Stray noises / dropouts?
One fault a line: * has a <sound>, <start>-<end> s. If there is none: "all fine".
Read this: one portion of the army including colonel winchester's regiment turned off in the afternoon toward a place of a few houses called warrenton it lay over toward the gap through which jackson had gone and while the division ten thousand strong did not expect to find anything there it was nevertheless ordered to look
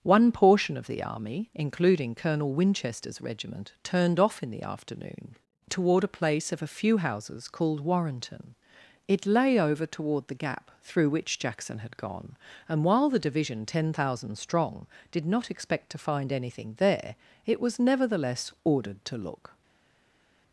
all fine